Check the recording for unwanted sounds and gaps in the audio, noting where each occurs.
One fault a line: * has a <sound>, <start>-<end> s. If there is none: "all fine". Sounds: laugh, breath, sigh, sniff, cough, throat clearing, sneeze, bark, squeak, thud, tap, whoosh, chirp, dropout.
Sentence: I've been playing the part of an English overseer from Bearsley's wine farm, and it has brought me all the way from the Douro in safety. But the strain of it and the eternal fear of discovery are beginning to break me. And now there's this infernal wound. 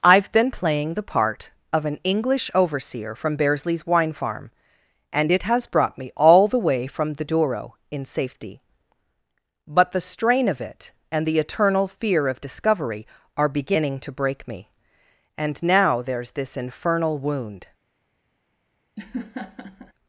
* has a laugh, 19.0-19.9 s